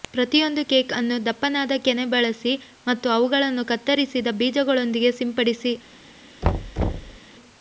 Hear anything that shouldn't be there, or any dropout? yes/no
yes